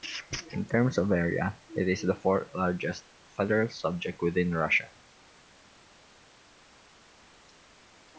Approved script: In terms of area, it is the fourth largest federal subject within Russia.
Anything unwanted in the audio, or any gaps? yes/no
no